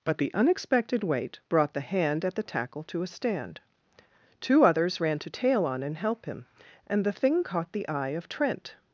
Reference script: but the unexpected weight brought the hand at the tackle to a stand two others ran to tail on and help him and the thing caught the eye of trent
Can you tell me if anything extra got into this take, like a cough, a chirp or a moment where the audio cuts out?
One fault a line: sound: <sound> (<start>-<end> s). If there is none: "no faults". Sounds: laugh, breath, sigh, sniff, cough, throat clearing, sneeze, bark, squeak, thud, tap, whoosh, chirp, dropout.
no faults